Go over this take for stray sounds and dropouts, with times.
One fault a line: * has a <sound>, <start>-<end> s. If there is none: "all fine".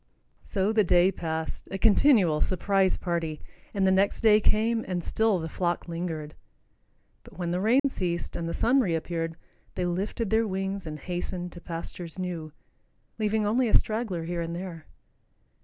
* has a dropout, 7.8-7.8 s